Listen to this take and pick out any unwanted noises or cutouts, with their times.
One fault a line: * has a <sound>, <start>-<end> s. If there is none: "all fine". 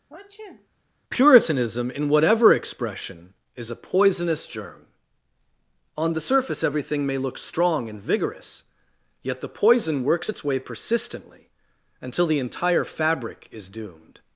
* has a sneeze, 0.1-0.7 s